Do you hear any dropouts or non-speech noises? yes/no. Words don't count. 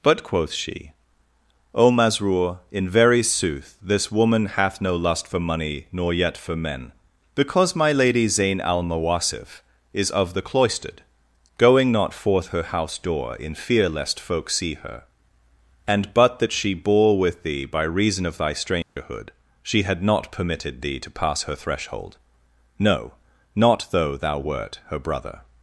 yes